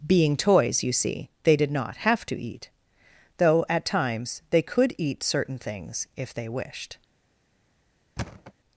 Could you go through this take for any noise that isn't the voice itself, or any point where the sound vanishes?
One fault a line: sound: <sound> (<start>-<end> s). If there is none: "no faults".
sound: thud (8.2-8.5 s)